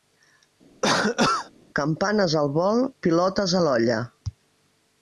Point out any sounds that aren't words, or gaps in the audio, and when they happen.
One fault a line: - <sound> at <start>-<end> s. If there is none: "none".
- cough at 0.8-1.5 s